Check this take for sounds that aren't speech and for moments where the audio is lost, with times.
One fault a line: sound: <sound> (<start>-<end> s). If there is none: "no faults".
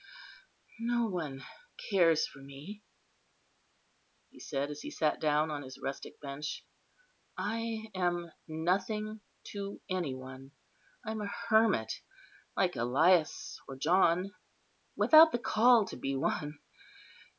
no faults